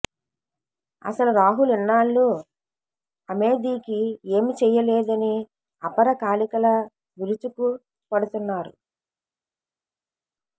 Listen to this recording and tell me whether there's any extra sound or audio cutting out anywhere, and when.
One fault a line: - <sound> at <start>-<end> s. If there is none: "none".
none